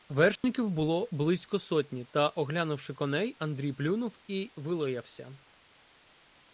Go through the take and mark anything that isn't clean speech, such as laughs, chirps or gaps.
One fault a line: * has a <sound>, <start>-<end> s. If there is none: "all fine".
* has a dropout, 0.4-0.4 s